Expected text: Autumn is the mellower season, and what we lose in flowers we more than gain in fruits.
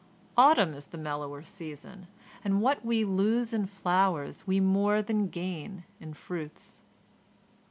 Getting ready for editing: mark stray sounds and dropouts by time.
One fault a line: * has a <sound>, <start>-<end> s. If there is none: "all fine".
all fine